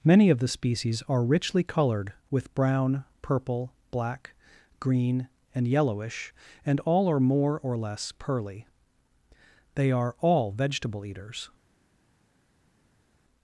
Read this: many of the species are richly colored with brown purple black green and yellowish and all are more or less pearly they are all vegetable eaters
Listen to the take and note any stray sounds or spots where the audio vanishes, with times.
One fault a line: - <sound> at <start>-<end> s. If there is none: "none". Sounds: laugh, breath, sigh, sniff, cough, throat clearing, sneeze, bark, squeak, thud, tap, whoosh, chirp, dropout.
none